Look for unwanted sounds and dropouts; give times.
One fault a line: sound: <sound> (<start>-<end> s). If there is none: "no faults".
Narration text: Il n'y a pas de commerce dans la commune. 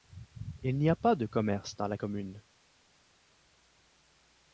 no faults